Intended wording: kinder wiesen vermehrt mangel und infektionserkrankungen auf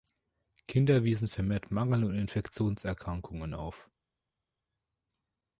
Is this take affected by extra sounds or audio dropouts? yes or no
no